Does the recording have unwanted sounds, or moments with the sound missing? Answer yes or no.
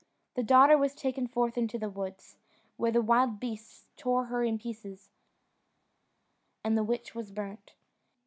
no